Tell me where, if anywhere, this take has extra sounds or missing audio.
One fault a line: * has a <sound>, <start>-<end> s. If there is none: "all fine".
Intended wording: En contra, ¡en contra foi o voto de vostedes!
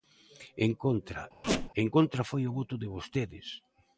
* has a squeak, 1.4-1.7 s